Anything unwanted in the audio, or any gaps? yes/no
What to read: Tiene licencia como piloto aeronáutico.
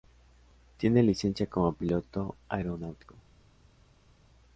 no